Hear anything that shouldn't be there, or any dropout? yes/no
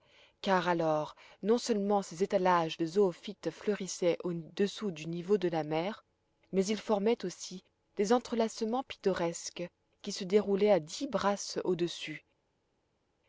no